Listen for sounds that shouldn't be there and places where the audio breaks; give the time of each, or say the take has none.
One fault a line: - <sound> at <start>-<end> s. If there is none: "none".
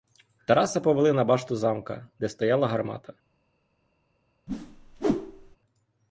- whoosh at 4.5-5.6 s